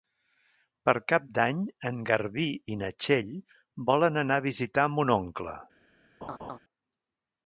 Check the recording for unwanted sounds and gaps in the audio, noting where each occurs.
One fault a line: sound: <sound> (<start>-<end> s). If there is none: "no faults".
sound: laugh (6.2-6.6 s)